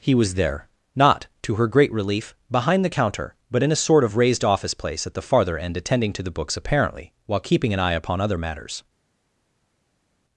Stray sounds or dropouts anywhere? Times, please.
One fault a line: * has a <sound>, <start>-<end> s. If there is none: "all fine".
all fine